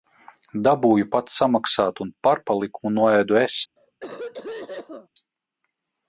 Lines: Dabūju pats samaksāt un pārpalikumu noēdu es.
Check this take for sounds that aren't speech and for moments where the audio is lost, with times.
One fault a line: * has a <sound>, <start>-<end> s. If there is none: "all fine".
* has a cough, 3.8-5.1 s